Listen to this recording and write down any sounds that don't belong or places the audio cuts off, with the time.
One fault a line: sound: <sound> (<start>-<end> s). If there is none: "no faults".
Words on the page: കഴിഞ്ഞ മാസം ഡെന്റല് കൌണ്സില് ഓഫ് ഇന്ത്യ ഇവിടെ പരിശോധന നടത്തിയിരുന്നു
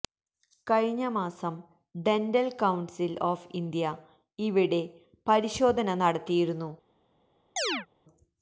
sound: chirp (7.6-7.9 s)